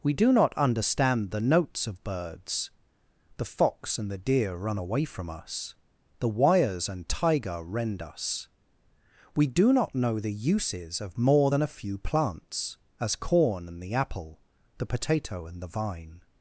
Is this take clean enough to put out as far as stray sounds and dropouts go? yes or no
yes